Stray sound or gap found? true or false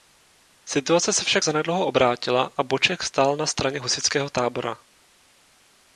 false